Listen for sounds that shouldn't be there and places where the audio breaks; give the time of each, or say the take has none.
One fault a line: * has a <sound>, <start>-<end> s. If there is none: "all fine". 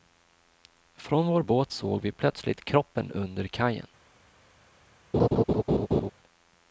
* has a laugh, 5.1-6.1 s